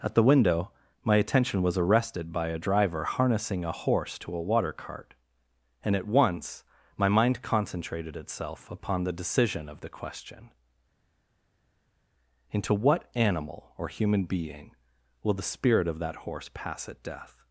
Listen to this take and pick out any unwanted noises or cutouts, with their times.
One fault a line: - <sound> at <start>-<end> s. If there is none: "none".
none